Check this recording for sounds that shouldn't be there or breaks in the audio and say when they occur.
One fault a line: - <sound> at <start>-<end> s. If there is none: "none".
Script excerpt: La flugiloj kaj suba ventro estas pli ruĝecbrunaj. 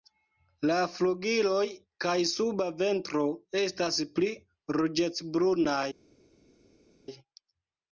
none